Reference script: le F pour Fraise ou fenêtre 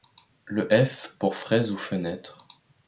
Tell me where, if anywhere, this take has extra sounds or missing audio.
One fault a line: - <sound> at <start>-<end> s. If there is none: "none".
none